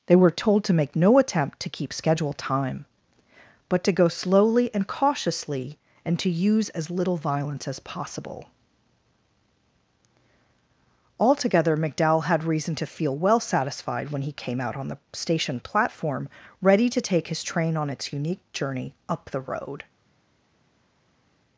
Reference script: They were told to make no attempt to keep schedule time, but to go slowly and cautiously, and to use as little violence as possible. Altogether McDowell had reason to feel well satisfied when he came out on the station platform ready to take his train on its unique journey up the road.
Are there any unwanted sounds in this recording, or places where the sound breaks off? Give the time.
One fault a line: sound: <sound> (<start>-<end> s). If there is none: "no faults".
no faults